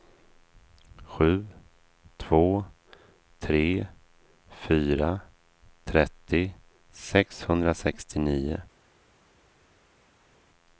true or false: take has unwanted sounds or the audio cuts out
false